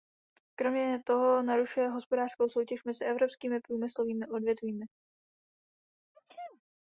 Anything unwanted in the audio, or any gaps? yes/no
yes